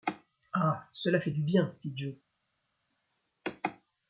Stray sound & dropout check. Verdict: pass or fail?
pass